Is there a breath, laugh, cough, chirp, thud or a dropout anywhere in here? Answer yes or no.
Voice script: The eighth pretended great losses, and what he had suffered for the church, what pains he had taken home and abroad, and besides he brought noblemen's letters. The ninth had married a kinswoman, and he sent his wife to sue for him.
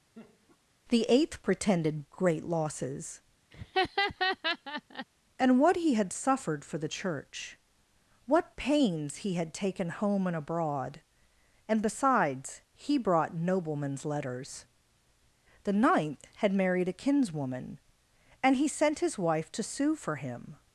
yes